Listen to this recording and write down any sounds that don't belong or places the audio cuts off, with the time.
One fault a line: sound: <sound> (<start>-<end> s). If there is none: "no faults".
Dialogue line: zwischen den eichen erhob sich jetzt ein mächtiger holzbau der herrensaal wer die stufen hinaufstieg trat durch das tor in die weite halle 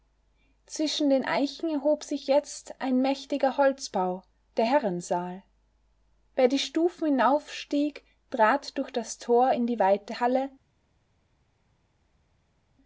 no faults